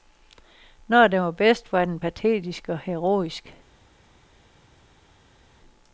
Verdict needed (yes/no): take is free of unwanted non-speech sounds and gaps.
yes